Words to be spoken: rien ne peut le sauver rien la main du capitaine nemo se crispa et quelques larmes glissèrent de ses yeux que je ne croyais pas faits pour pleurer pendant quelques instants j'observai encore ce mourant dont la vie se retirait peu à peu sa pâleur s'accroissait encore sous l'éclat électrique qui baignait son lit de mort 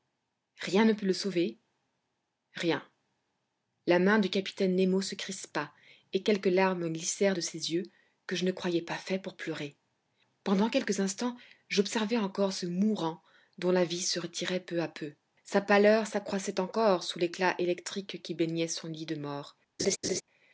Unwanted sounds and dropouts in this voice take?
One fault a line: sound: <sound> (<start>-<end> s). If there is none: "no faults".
sound: laugh (19.8-20.2 s)